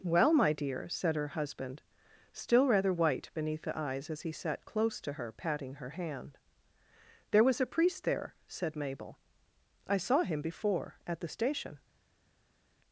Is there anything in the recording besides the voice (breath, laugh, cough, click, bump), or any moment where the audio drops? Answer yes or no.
no